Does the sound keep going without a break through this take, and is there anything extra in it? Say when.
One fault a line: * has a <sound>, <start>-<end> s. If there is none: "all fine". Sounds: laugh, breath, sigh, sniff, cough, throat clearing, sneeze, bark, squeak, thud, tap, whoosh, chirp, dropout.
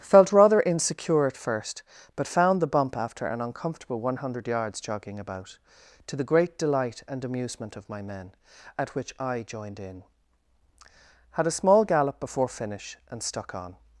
all fine